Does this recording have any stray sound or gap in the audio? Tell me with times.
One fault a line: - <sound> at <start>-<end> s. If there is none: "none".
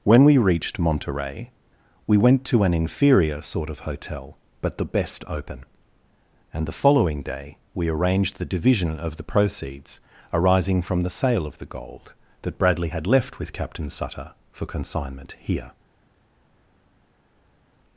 none